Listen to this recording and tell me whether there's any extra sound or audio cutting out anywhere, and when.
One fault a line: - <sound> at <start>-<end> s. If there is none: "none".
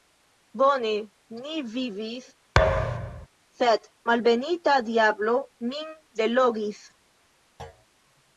- thud at 2.6-3.3 s
- thud at 7.6-7.9 s